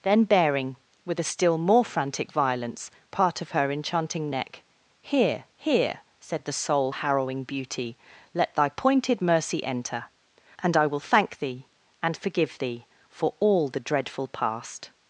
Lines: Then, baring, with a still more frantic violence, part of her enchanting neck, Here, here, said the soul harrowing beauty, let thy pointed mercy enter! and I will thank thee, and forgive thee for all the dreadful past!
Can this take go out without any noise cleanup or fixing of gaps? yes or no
yes